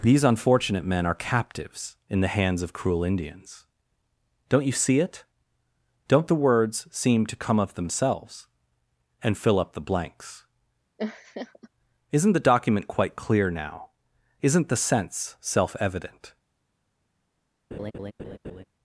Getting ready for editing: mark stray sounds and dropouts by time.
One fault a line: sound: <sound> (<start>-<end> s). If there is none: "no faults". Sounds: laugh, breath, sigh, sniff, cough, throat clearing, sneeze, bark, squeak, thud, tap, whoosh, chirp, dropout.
sound: laugh (11.0-11.7 s)
sound: laugh (17.7-18.6 s)